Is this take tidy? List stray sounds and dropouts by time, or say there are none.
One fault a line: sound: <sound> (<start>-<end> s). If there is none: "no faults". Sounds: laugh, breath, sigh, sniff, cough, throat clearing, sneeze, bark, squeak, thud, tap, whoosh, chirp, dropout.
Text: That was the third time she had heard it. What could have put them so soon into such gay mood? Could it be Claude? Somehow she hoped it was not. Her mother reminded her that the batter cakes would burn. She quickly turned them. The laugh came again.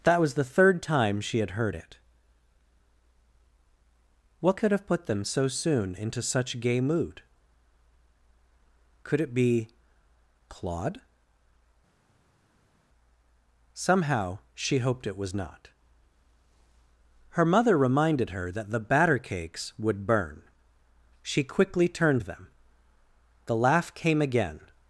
no faults